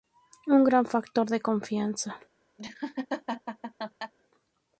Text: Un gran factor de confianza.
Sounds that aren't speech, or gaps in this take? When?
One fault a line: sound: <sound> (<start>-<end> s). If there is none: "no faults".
sound: laugh (2.6-4.1 s)